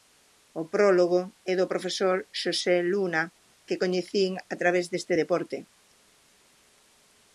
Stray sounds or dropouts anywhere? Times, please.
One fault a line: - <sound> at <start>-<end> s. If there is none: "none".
none